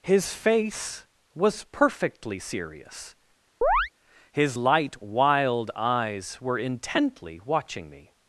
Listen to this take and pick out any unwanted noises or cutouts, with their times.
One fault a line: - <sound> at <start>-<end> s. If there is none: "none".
- chirp at 3.6-3.9 s